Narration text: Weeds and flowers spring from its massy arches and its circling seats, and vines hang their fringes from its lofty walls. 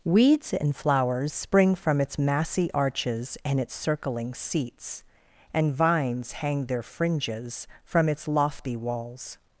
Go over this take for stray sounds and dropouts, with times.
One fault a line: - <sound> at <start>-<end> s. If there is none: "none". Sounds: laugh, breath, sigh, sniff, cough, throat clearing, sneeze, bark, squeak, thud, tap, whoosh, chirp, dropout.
none